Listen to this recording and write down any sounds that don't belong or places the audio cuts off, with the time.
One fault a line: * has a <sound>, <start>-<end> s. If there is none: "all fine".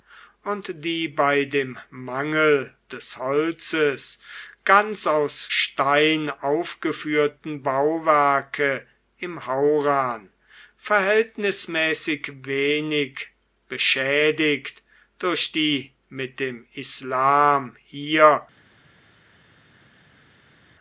all fine